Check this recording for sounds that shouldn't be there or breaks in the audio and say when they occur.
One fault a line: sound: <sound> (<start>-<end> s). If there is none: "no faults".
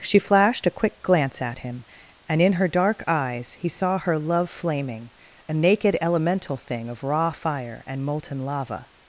no faults